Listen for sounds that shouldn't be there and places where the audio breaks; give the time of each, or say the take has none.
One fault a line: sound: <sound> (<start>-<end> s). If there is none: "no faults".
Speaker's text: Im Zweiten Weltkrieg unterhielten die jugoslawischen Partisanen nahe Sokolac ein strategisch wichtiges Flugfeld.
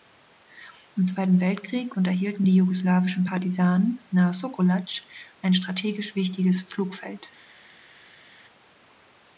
no faults